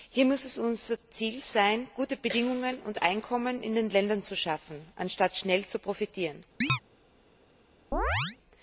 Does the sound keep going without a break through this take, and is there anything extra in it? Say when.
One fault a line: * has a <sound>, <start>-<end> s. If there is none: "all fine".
* has a chirp, 6.6-6.8 s
* has a chirp, 7.9-8.4 s